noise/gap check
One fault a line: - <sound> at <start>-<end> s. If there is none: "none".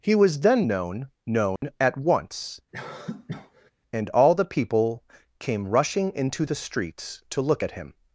- dropout at 1.6-1.6 s
- cough at 2.7-3.7 s